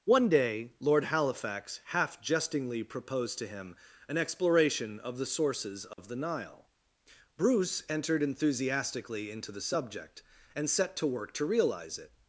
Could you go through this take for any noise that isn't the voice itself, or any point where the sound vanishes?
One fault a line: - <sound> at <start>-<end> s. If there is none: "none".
- dropout at 5.9-6.0 s